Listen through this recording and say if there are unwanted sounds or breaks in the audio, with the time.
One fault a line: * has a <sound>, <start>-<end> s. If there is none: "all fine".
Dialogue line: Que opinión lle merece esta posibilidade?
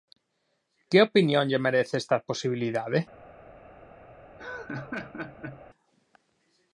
* has a laugh, 4.4-5.6 s